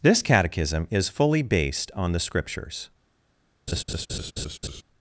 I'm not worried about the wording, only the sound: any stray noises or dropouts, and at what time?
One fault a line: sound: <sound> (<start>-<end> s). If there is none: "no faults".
sound: laugh (3.7-4.8 s)